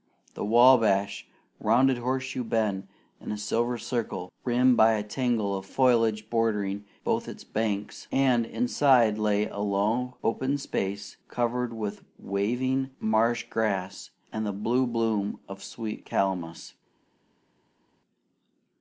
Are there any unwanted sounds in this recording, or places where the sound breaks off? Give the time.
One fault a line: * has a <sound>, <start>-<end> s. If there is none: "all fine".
all fine